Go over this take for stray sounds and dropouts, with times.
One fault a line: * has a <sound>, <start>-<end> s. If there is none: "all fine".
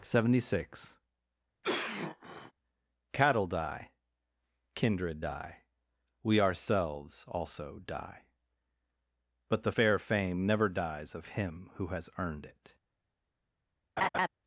* has a cough, 1.6-2.5 s
* has a laugh, 14.0-14.3 s